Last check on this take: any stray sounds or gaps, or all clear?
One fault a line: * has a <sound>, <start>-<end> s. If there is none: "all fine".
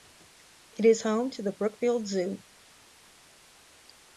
all fine